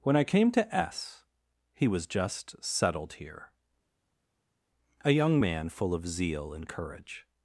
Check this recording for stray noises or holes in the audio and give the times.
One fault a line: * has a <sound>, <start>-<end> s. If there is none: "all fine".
all fine